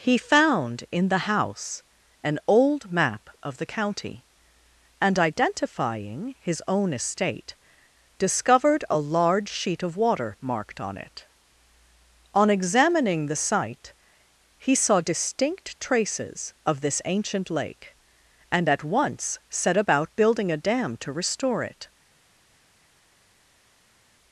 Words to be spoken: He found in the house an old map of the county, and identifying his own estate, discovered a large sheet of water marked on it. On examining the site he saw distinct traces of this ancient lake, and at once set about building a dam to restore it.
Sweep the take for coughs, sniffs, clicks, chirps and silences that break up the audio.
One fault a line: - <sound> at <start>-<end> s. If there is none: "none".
none